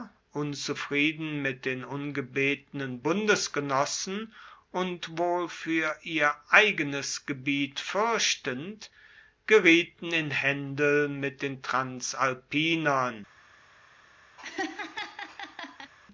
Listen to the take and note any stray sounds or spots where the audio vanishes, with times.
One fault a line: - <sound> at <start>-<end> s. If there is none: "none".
- laugh at 14.4-15.9 s